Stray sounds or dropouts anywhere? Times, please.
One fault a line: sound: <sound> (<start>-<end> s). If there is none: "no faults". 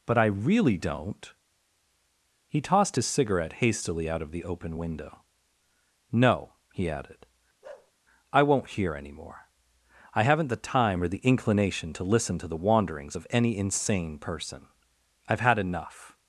sound: bark (7.6-7.9 s)